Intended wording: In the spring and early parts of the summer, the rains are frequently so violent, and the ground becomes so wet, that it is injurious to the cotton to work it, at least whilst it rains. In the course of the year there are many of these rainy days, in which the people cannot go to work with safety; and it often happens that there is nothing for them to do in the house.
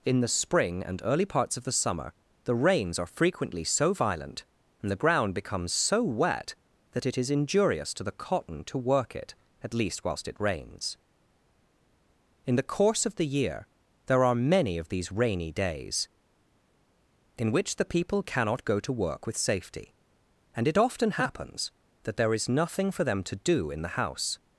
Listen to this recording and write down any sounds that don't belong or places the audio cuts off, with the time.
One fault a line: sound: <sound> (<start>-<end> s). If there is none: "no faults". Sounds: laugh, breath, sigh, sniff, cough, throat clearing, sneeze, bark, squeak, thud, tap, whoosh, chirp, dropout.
no faults